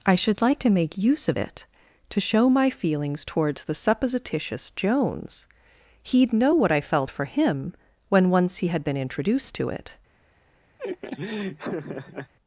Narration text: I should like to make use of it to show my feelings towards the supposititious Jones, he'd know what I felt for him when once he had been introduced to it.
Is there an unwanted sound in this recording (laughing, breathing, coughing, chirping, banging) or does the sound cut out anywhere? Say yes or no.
yes